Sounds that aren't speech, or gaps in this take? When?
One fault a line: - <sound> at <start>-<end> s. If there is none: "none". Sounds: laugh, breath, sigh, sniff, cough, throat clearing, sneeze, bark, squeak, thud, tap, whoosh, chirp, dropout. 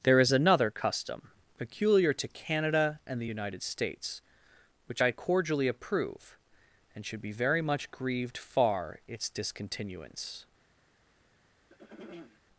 - throat clearing at 11.7-12.4 s